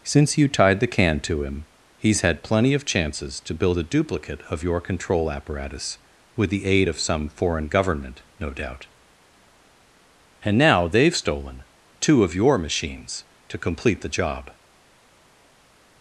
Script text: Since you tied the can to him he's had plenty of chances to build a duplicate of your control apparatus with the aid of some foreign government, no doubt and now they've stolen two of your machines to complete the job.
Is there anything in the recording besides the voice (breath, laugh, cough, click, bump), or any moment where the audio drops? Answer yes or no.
no